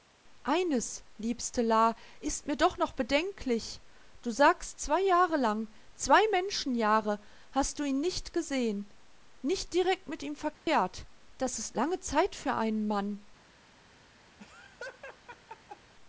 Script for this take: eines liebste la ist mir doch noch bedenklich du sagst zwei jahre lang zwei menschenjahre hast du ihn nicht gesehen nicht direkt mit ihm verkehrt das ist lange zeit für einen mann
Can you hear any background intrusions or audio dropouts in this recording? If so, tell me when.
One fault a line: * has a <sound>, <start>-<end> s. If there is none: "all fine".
* has a dropout, 10.5-10.7 s
* has a laugh, 14.4-15.9 s